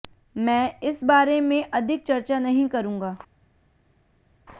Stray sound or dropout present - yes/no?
no